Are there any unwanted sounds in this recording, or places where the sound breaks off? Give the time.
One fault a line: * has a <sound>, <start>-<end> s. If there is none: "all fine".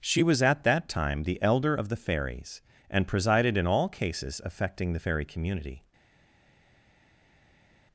all fine